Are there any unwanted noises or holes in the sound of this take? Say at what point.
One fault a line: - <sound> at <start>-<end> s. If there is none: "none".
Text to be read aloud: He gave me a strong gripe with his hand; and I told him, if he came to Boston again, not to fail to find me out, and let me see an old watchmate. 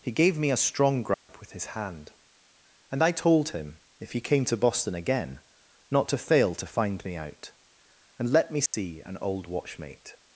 - dropout at 1.1-1.3 s
- dropout at 8.7-8.7 s